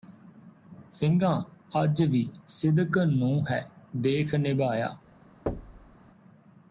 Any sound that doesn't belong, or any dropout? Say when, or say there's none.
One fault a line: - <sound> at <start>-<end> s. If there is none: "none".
- thud at 5.5-6.0 s